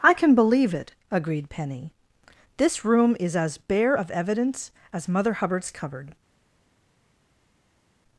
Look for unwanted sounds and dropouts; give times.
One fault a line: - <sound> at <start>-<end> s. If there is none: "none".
none